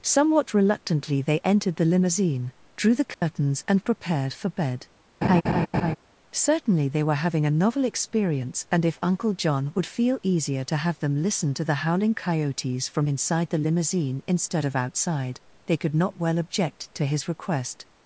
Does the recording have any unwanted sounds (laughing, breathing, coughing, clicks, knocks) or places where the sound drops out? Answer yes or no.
yes